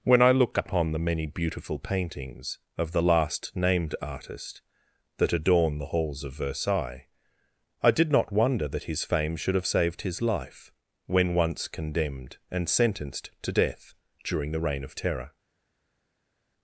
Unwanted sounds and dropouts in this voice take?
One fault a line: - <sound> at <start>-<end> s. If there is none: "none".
none